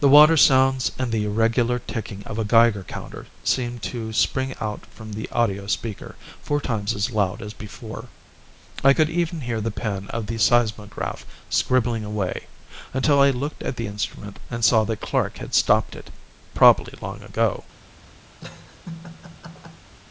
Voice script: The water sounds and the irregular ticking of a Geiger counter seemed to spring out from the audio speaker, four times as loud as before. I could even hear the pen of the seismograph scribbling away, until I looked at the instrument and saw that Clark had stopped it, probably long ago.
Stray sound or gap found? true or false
true